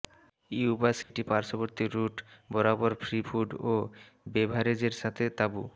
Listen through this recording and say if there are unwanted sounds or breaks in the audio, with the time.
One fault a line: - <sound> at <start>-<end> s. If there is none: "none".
- dropout at 1.0-1.1 s